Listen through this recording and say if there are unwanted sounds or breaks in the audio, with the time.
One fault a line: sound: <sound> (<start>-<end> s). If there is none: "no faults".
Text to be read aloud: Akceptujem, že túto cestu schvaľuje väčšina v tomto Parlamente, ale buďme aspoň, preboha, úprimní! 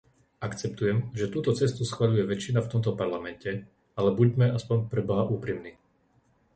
no faults